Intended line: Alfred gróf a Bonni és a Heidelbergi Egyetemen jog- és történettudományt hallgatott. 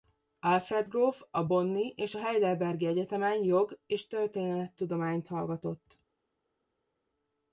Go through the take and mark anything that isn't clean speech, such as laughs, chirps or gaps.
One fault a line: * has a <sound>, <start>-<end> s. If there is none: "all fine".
all fine